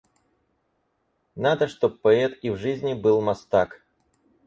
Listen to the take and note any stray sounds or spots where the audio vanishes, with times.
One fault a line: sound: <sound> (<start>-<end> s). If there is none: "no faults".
no faults